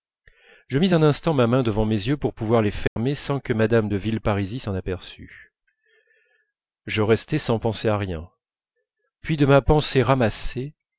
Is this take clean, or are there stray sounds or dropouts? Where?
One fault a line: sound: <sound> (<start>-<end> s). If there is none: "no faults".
sound: dropout (2.9-3.0 s)